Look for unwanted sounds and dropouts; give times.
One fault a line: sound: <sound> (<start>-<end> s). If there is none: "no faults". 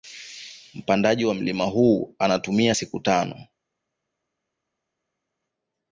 no faults